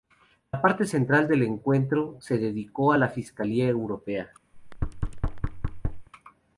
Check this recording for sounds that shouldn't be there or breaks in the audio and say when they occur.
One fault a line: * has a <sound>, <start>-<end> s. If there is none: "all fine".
* has a thud, 4.5-6.1 s